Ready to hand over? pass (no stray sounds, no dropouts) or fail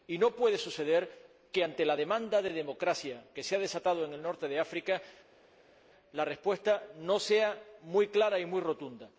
pass